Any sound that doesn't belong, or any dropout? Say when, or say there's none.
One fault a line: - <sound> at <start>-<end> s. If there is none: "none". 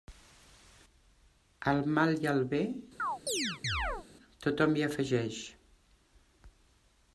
- chirp at 3.0-4.1 s